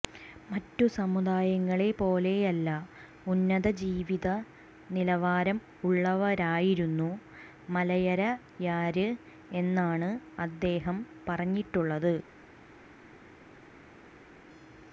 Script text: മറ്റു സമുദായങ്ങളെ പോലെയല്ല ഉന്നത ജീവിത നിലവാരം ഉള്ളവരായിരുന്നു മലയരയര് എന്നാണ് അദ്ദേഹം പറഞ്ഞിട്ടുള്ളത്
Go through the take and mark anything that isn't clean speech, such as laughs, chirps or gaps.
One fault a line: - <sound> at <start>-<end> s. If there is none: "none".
none